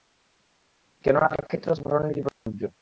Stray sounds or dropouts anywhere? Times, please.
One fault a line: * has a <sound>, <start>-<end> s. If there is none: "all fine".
* has a dropout, 2.3-2.5 s